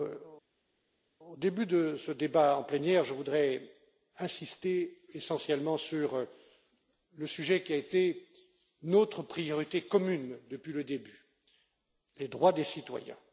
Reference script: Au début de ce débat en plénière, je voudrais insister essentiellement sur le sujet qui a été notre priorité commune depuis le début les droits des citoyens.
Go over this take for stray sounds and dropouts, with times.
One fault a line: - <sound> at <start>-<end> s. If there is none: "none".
none